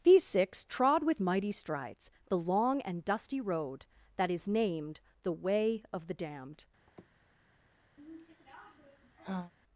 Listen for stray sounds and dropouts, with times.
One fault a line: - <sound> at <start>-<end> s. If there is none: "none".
- sniff at 6.9-7.1 s
- sigh at 8.0-9.5 s